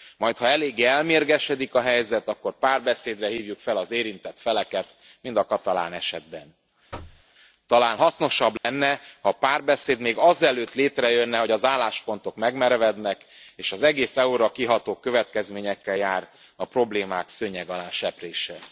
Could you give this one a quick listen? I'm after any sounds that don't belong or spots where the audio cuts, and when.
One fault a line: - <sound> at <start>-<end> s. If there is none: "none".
- thud at 6.9-7.2 s
- dropout at 8.6-8.6 s